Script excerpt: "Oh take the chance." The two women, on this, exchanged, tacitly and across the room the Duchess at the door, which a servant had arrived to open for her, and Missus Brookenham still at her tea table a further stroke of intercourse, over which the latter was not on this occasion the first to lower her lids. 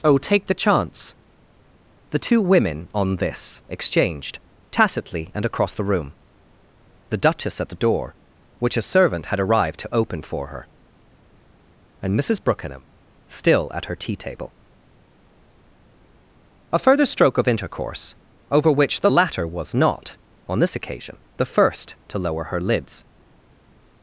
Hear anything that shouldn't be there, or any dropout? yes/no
no